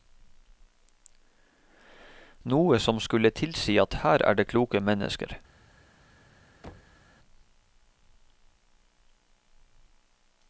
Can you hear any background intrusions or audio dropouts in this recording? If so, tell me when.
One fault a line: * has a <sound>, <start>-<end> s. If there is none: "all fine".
* has a thud, 6.6-7.0 s